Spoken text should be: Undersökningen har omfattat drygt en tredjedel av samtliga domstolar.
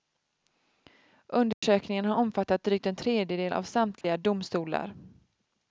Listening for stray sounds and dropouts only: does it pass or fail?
fail